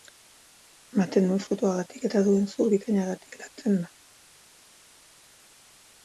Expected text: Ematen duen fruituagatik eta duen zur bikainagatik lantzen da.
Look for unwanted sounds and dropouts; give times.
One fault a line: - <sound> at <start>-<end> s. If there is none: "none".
none